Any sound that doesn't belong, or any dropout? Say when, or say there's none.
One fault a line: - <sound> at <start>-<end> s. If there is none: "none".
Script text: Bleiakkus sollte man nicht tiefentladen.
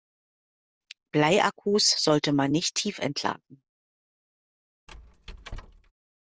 - squeak at 4.9-5.9 s